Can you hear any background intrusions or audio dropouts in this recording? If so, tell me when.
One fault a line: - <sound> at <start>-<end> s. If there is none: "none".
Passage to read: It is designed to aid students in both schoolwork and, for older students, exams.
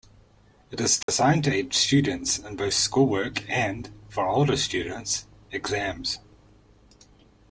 - dropout at 1.0-1.1 s